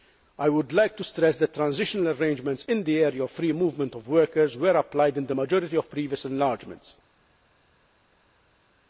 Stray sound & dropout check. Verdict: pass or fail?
pass